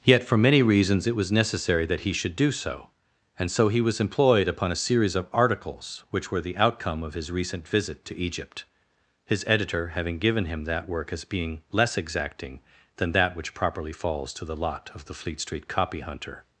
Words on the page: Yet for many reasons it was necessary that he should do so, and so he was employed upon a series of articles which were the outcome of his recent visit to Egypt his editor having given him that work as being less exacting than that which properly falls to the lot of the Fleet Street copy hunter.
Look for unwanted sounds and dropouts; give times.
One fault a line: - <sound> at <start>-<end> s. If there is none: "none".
none